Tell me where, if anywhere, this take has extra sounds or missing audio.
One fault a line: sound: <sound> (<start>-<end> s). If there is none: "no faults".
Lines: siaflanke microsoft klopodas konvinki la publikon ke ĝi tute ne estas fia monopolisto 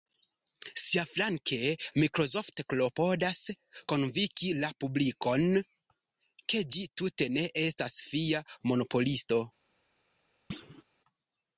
sound: thud (10.5-10.8 s)